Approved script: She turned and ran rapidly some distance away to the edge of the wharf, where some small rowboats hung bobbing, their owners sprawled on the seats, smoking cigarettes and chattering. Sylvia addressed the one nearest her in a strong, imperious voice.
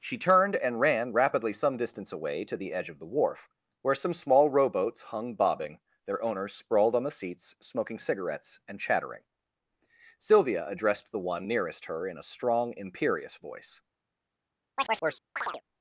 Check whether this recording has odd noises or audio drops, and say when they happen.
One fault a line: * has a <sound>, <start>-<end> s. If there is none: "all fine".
* has a chirp, 14.8-15.6 s